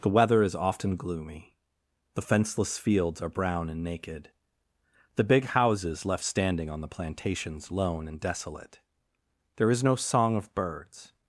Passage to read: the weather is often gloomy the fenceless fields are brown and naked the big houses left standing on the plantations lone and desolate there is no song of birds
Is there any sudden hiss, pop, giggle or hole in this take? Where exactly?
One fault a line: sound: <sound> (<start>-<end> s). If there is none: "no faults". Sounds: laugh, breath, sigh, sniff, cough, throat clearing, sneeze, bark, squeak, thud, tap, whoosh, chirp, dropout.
no faults